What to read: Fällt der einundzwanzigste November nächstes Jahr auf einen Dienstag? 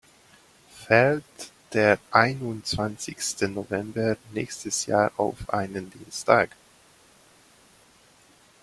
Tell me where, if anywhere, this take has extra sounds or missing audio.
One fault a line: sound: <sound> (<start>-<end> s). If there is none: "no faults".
no faults